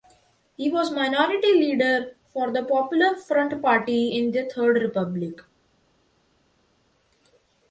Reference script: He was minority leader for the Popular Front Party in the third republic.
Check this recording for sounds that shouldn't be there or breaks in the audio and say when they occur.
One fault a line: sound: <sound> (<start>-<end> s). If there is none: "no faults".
no faults